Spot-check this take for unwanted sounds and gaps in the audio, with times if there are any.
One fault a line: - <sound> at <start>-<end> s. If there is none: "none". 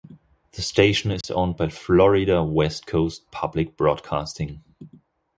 - dropout at 1.2-1.2 s